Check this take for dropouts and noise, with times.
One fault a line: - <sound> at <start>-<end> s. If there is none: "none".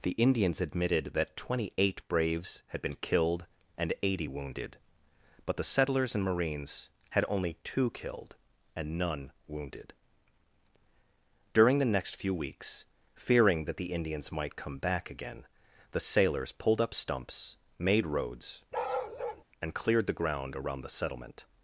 - bark at 18.7-19.4 s